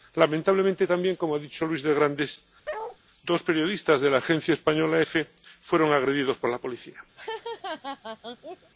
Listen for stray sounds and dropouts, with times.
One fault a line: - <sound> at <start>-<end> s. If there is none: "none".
- bark at 2.6-3.0 s
- laugh at 7.2-8.7 s